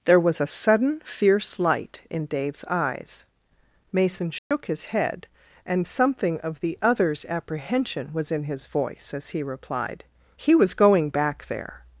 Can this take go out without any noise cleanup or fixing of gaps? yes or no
no